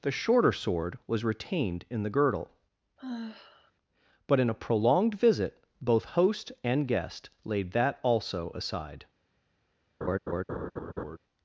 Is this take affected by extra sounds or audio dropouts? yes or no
yes